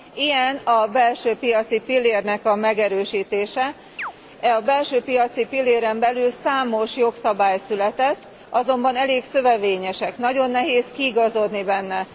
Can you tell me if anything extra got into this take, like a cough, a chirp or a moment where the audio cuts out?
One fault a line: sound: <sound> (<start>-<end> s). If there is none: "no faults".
sound: chirp (4.0-4.1 s)